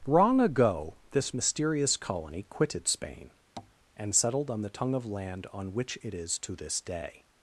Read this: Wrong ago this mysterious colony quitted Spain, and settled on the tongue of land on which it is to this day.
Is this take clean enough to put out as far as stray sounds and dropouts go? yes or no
no